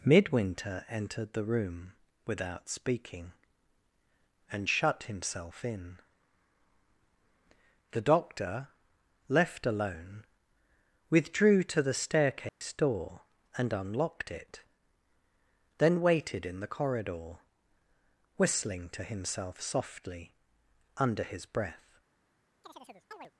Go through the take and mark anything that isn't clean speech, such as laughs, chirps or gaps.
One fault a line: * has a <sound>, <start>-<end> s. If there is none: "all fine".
* has a dropout, 12.5-12.6 s
* has a chirp, 22.6-23.3 s